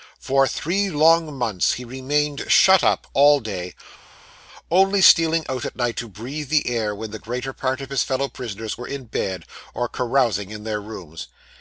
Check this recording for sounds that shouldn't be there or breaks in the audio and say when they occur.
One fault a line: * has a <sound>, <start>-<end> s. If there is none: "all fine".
all fine